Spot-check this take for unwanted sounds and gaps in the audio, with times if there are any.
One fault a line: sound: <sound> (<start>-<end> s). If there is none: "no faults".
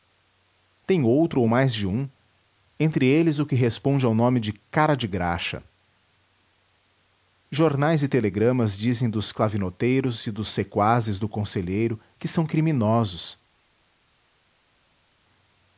no faults